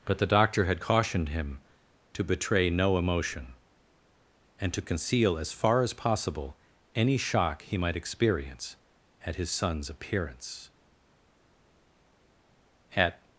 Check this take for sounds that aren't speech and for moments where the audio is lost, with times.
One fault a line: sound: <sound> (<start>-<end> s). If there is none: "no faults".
no faults